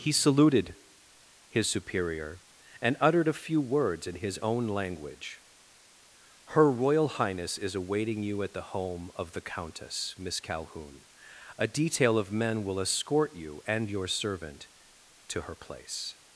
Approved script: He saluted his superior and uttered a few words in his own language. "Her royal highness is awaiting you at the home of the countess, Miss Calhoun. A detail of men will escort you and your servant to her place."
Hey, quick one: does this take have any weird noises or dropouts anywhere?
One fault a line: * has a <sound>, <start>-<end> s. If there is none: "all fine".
all fine